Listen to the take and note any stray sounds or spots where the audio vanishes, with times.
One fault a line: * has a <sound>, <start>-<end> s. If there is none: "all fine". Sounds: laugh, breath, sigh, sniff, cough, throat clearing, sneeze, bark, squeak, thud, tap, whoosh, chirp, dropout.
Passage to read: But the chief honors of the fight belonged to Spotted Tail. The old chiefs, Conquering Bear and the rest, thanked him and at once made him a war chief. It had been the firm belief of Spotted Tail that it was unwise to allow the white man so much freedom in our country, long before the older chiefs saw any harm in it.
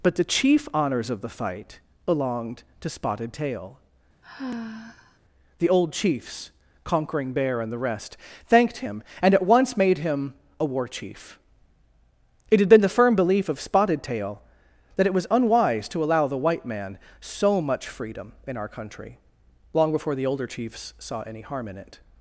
* has a sigh, 4.2-5.2 s